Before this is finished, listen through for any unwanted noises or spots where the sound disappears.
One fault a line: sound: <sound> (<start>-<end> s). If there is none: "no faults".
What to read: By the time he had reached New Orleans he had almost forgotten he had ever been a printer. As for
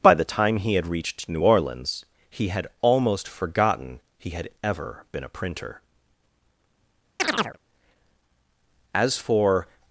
sound: chirp (7.2-7.6 s)